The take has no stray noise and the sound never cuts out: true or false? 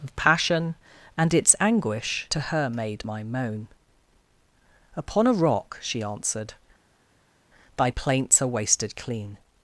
true